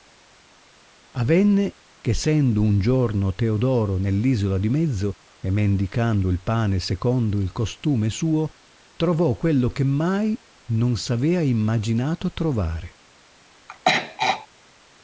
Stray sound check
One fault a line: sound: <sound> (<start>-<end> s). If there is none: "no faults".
sound: throat clearing (13.7-14.5 s)